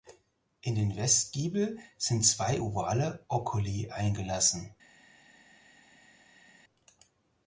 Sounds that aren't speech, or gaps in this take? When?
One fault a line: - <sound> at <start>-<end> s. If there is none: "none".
none